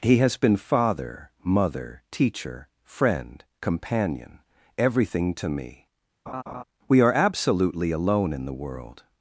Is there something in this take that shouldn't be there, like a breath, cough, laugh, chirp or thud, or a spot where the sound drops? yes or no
yes